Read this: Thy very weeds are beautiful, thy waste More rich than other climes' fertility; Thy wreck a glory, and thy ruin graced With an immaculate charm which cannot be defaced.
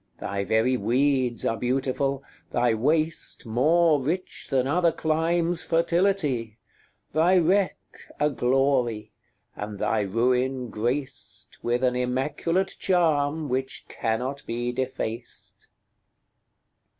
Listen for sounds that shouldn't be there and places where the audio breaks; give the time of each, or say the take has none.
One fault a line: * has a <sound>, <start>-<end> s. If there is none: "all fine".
all fine